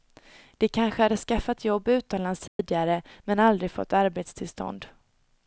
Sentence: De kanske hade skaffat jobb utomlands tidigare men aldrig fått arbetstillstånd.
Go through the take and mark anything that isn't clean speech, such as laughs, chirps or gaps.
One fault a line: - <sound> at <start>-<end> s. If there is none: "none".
- dropout at 2.5-2.6 s